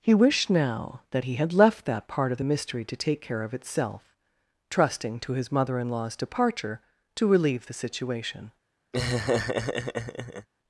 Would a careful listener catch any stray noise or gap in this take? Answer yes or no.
yes